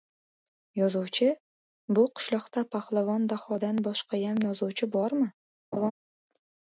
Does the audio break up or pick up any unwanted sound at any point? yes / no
yes